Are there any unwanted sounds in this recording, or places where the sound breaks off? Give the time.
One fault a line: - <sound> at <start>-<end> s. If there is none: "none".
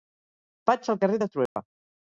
- dropout at 1.5-1.6 s